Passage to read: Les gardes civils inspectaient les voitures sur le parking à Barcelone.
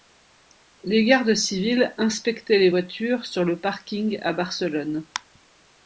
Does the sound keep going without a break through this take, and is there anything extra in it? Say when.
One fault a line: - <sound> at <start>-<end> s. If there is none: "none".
none